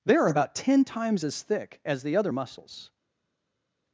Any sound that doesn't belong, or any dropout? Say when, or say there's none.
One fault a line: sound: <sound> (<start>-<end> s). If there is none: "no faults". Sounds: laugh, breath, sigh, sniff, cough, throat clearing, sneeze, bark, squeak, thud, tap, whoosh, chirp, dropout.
no faults